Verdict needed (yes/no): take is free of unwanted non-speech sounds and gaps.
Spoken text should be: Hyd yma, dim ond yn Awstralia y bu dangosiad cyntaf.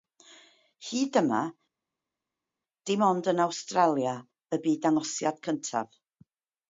yes